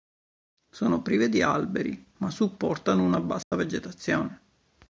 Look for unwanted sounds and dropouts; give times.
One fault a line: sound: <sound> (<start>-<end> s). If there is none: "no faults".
sound: dropout (3.4-3.5 s)